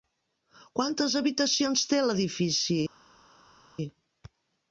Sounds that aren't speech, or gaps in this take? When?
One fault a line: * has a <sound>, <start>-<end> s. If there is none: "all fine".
all fine